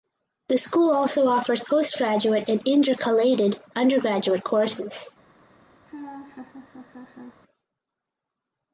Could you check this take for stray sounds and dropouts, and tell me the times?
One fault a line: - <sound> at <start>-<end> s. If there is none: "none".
- laugh at 5.9-7.4 s